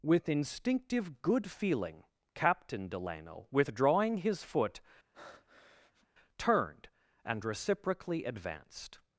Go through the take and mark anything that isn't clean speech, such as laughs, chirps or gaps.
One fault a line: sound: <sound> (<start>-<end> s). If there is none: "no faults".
sound: breath (5.1-6.1 s)